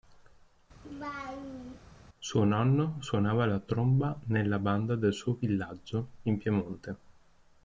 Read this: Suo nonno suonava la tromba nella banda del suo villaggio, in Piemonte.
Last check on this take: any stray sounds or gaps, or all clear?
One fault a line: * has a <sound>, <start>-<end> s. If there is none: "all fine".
* has a laugh, 0.8-1.8 s